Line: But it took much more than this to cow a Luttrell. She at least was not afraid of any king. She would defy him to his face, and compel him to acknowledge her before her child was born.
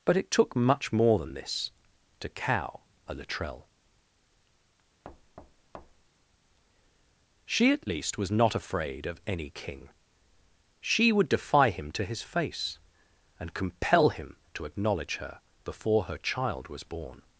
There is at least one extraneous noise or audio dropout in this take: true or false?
true